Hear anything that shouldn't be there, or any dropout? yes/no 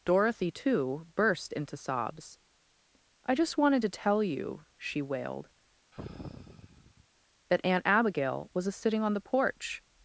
yes